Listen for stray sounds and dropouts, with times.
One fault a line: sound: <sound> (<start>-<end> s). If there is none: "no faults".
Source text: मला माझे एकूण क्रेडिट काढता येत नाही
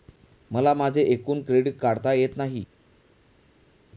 no faults